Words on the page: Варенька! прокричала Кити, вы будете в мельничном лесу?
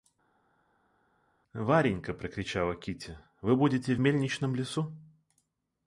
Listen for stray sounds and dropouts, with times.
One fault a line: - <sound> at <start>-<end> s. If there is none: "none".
none